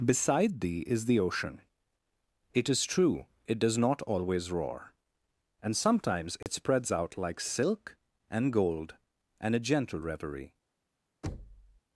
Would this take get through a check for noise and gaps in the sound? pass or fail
fail